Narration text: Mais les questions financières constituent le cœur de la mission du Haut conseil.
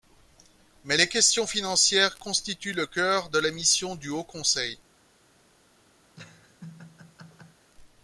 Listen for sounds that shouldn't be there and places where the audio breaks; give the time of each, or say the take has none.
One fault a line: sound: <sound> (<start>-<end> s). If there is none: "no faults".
sound: laugh (6.1-7.7 s)